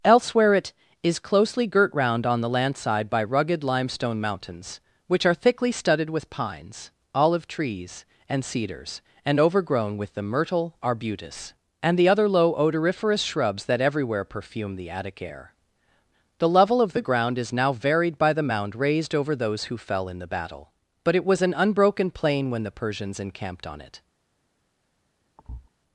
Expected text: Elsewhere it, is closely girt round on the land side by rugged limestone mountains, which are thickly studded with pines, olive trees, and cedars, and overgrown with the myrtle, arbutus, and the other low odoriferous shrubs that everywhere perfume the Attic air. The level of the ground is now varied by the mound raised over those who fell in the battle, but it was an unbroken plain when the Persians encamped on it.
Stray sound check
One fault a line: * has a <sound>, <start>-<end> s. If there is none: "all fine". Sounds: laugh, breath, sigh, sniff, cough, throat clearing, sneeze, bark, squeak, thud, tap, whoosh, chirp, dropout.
* has a thud, 25.4-25.7 s